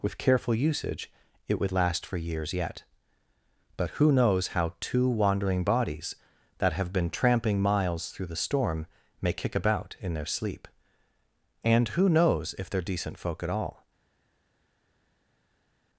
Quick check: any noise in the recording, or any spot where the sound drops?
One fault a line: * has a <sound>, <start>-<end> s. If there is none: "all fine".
all fine